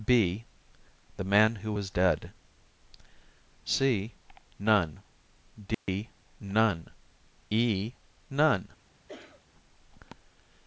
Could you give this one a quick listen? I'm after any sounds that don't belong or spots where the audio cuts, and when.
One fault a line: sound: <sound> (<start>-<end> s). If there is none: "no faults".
sound: dropout (5.7-5.9 s)
sound: cough (9.1-9.4 s)